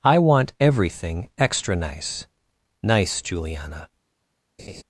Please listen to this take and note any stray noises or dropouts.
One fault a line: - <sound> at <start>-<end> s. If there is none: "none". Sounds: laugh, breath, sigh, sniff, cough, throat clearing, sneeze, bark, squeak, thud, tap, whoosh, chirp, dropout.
- laugh at 4.6-4.8 s